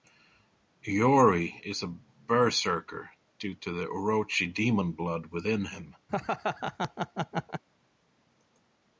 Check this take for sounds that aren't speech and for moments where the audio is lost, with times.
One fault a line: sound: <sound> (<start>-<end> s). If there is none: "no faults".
sound: laugh (6.1-7.6 s)